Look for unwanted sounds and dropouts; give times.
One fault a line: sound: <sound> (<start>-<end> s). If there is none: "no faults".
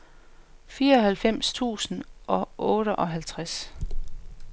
no faults